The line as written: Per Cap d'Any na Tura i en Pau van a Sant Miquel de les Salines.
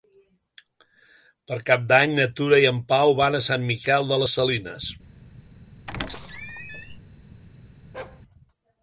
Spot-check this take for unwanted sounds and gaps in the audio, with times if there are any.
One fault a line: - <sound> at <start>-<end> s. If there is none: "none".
- squeak at 5.9-7.0 s
- bark at 7.9-8.2 s